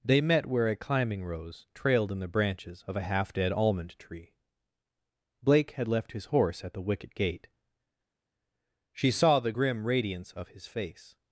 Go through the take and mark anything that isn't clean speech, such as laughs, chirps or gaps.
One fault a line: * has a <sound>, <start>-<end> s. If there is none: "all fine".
all fine